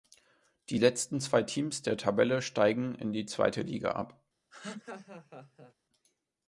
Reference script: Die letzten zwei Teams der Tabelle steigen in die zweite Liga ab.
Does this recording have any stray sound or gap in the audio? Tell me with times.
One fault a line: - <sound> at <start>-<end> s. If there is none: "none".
- laugh at 4.5-5.7 s